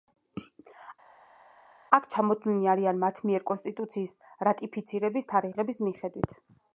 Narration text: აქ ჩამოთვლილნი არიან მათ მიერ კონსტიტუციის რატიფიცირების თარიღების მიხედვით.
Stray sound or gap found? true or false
false